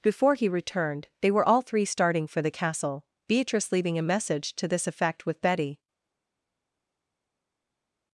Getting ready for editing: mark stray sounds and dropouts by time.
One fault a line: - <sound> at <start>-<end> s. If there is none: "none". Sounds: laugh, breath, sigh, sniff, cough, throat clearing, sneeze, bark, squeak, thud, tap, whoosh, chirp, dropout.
none